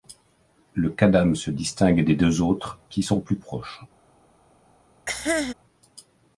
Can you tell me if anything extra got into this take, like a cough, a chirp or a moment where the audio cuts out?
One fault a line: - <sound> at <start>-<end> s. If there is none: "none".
- cough at 5.1-5.5 s